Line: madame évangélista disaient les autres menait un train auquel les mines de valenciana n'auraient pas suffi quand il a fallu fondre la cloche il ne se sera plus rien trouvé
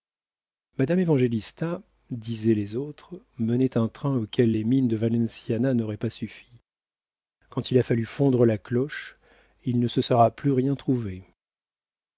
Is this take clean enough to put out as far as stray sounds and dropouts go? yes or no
yes